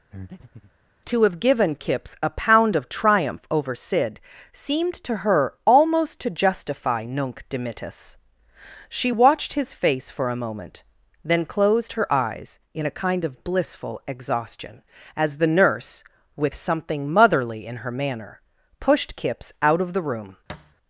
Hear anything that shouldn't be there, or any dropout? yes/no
yes